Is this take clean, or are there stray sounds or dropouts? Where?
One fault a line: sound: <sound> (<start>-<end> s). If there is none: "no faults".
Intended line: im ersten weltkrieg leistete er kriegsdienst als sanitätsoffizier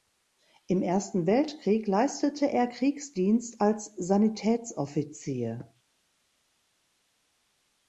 no faults